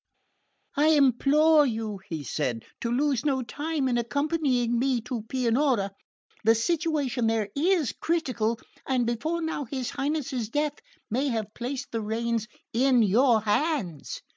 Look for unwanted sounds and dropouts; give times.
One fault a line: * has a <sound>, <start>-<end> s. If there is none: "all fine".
all fine